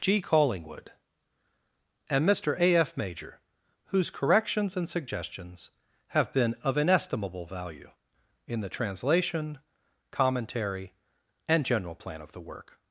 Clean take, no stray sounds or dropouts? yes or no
yes